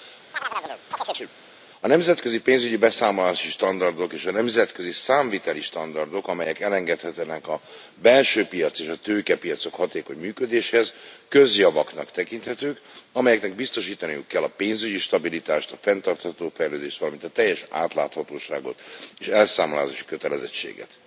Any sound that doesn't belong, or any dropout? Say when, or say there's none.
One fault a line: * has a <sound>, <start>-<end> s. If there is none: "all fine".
* has a chirp, 0.3-1.3 s